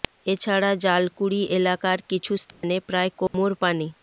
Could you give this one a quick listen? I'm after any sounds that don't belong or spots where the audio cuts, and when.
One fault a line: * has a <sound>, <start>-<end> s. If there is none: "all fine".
* has a dropout, 2.5-2.6 s
* has a dropout, 3.3-3.3 s